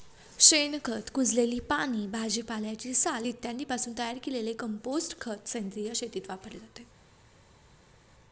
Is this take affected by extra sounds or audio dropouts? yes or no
no